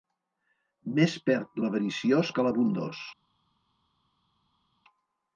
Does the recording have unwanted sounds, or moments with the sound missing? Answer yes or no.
no